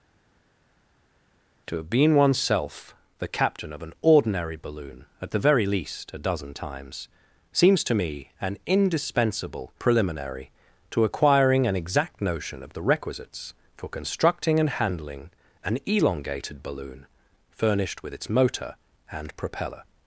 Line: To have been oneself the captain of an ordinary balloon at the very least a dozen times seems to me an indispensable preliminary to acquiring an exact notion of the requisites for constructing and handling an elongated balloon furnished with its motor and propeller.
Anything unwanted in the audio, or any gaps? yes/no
no